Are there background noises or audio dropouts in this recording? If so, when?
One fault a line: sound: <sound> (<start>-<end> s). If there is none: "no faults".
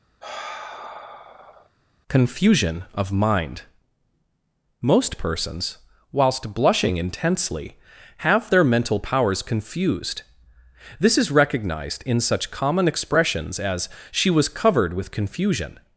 sound: sigh (0.2-1.7 s)